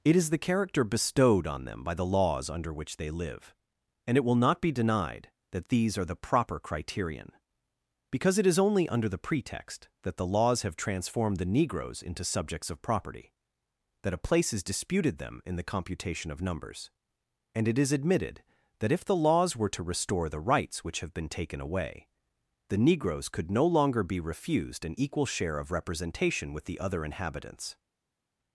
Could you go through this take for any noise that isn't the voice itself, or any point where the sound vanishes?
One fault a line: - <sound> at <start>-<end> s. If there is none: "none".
none